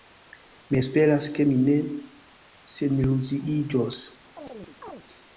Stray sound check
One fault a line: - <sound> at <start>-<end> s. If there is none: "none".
- chirp at 4.4-5.0 s